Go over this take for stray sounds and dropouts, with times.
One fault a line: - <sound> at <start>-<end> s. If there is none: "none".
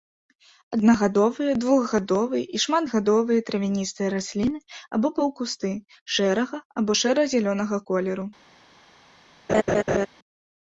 - laugh at 9.5-10.1 s